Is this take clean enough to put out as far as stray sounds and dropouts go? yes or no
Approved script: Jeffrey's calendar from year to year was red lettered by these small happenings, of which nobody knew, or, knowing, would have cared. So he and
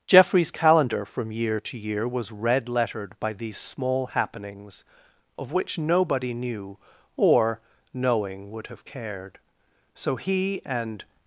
yes